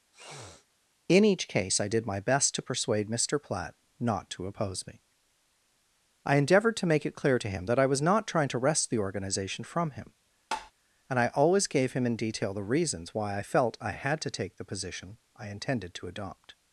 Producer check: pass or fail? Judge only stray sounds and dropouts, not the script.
fail